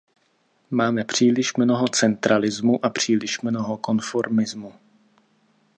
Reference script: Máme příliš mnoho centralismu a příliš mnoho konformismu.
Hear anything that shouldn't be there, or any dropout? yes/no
no